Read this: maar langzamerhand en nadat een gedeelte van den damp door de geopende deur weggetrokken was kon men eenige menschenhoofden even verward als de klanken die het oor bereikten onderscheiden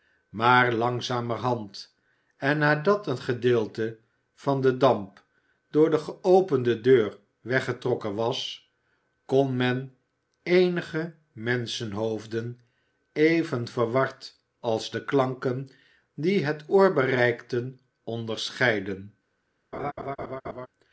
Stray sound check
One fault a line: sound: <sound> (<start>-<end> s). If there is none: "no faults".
sound: laugh (19.7-20.7 s)